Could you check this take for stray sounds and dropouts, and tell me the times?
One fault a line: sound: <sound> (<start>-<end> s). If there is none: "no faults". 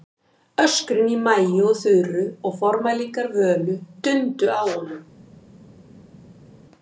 no faults